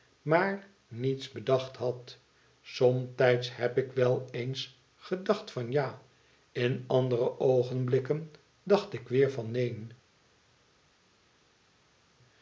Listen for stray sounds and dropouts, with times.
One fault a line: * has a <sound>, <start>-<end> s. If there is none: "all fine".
all fine